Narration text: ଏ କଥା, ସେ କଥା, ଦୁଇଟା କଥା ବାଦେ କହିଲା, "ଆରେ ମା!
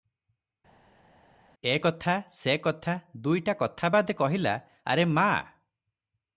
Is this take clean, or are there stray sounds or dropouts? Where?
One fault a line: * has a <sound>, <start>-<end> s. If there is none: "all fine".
all fine